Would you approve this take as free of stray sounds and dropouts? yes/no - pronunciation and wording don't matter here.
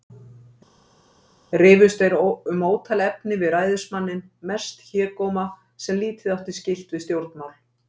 yes